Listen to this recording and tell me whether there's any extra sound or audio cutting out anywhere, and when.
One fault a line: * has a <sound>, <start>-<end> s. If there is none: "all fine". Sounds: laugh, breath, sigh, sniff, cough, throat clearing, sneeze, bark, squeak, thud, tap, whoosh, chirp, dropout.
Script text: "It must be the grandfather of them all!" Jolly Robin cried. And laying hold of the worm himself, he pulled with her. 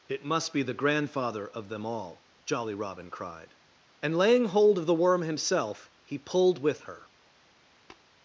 * has a tap, 7.9-8.1 s